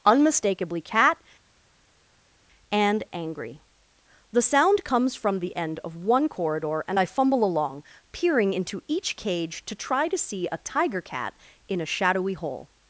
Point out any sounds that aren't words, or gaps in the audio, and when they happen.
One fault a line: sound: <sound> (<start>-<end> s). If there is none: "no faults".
no faults